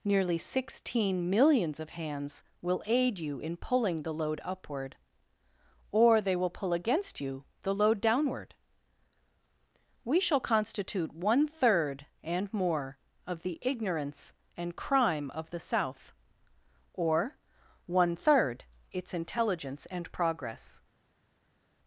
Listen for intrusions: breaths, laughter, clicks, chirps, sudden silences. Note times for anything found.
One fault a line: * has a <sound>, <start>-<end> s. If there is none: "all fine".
all fine